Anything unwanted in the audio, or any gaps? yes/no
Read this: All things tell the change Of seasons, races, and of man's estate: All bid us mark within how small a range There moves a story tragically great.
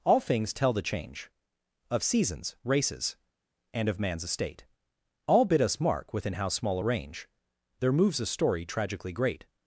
no